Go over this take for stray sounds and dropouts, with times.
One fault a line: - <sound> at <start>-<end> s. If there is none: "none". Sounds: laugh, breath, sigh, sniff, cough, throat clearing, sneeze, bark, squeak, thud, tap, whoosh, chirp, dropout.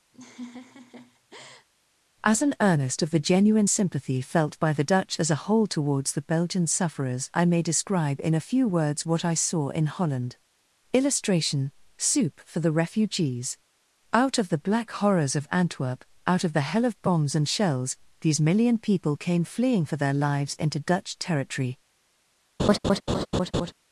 - laugh at 0.1-1.7 s
- laugh at 22.6-23.7 s